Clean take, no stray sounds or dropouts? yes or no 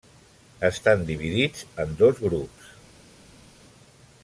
yes